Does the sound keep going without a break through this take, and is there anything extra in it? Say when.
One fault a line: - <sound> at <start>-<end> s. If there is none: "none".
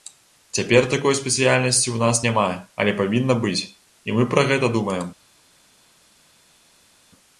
none